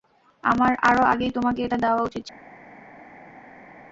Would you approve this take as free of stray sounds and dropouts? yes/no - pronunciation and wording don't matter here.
yes